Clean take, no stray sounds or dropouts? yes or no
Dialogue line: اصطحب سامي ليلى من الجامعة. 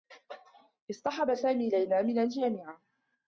yes